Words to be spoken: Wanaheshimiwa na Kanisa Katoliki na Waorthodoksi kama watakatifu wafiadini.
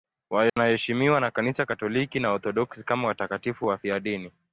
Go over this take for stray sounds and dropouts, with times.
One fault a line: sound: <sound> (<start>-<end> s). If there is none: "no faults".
sound: dropout (0.5-0.6 s)